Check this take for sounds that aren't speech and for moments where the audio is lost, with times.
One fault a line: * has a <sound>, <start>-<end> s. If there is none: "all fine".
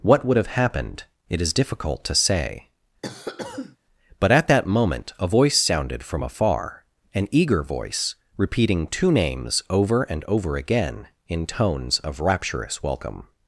* has a cough, 3.0-3.8 s